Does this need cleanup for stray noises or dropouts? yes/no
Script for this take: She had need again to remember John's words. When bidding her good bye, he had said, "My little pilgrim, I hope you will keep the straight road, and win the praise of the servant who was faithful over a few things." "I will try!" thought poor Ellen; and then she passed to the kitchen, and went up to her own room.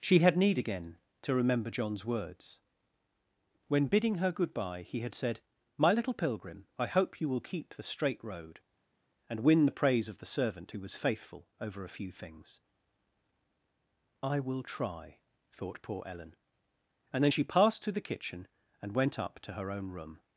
no